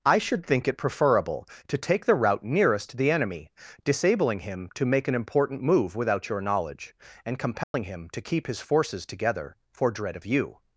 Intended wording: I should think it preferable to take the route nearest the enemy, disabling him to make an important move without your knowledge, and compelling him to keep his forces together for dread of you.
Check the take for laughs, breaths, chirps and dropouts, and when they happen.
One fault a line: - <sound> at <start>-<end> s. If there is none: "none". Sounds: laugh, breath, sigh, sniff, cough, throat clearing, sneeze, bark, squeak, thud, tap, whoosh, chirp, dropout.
- dropout at 7.6-7.7 s